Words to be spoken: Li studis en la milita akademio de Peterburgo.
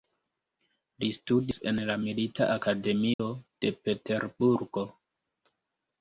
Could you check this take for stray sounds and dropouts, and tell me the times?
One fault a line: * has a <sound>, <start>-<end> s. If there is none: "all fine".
* has a dropout, 3.1-3.2 s